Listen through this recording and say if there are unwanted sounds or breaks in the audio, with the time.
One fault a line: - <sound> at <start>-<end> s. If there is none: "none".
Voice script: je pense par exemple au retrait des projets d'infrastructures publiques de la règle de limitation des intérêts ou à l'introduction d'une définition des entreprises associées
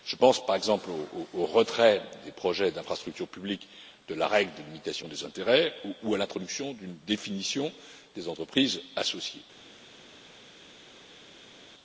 none